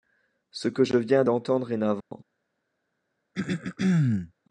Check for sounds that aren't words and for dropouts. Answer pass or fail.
fail